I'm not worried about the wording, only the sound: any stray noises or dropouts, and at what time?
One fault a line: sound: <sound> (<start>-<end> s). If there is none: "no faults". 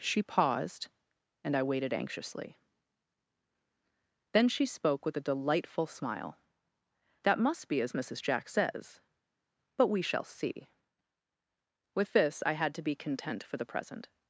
no faults